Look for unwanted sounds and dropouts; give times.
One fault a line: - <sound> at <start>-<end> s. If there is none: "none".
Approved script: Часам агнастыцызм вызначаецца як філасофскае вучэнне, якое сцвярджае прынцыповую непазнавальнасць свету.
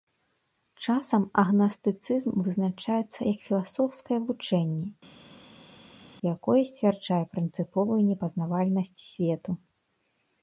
none